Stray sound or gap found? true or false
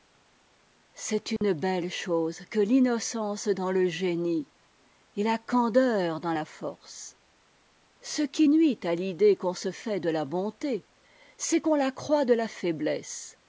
true